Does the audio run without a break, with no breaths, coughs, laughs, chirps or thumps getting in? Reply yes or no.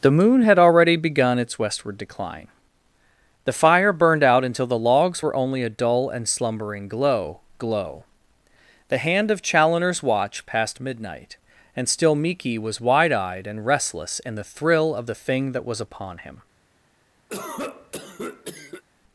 no